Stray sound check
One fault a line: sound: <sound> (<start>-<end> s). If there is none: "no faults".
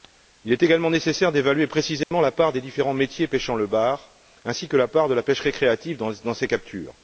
sound: dropout (2.0-2.1 s)